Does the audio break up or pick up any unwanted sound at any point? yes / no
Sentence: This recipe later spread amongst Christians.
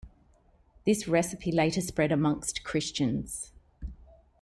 no